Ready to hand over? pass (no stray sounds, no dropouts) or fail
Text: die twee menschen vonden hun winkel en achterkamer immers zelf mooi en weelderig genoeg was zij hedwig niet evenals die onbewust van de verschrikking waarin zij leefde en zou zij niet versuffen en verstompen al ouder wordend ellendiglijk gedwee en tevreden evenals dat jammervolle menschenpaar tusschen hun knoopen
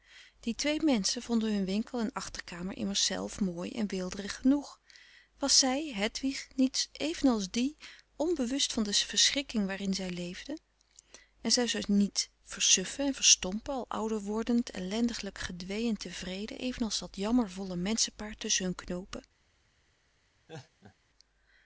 fail